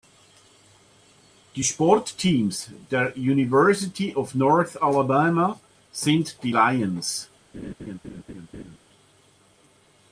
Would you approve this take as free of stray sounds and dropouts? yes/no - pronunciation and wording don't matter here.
no